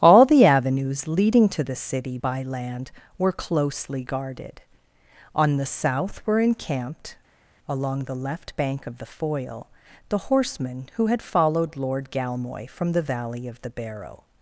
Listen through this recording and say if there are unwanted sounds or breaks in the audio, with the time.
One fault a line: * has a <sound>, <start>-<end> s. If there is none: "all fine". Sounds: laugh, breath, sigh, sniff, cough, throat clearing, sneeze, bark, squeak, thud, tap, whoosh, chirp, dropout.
all fine